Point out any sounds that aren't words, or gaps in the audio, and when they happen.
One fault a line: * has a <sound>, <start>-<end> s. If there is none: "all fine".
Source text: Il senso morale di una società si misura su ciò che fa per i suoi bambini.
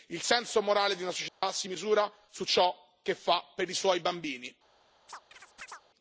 * has a dropout, 1.3-1.4 s
* has a chirp, 5.1-5.8 s